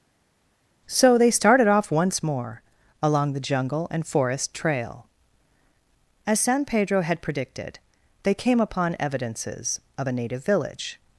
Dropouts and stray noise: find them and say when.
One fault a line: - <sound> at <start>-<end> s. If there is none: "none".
none